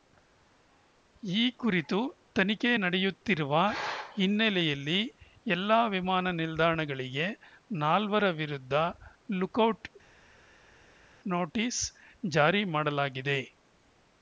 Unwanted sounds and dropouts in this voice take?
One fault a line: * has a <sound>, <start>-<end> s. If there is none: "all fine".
all fine